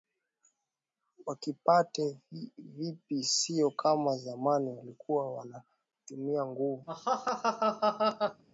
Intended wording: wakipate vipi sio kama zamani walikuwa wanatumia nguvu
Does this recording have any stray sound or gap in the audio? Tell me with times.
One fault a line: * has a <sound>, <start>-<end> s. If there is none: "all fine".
* has a laugh, 6.9-8.4 s